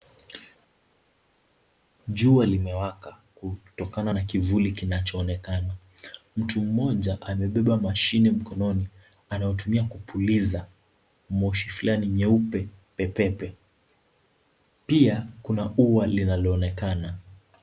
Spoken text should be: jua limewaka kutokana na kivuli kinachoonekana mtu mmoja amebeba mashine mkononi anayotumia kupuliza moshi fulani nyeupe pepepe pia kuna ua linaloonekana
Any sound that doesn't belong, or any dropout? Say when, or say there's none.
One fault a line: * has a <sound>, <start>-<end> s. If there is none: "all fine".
all fine